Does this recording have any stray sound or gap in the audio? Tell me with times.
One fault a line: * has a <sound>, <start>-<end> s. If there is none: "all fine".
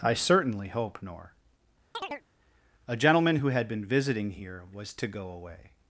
* has a chirp, 1.9-2.2 s